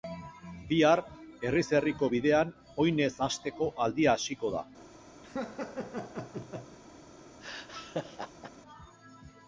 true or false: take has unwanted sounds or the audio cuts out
true